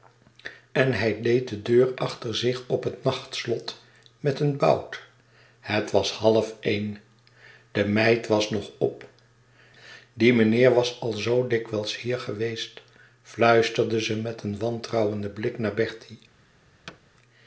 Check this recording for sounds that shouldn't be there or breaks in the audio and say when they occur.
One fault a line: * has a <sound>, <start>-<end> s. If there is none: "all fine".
* has a thud, 16.9-17.0 s